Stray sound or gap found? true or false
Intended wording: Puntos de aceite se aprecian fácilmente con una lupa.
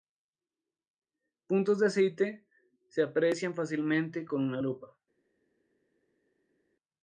false